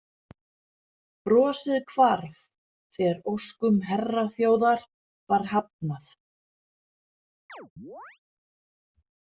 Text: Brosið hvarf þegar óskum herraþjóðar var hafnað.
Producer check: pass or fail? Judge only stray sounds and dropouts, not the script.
fail